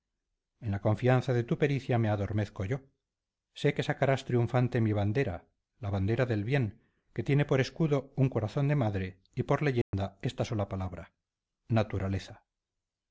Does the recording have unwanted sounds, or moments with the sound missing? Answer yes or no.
yes